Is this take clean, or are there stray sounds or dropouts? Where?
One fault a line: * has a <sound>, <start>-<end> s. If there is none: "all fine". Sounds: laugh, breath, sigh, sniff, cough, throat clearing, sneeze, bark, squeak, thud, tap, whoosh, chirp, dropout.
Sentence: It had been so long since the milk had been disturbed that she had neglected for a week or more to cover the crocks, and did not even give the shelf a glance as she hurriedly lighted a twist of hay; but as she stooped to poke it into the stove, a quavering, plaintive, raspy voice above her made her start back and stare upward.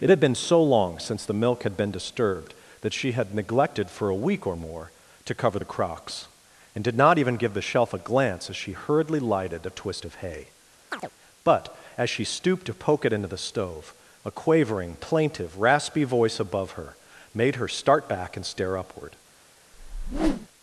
* has a chirp, 10.9-11.1 s
* has a whoosh, 19.7-20.5 s